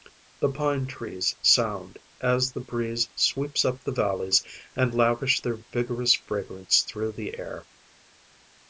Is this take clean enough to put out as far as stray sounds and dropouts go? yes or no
yes